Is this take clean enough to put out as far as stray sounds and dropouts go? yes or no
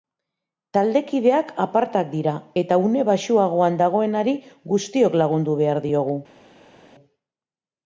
yes